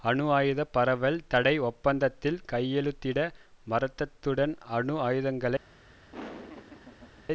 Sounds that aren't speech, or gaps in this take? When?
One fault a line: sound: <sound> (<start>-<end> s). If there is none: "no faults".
sound: laugh (6.1-7.3 s)